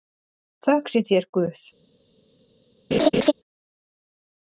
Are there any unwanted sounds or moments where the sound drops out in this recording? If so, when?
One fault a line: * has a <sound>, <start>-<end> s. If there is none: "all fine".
* has a laugh, 2.9-3.3 s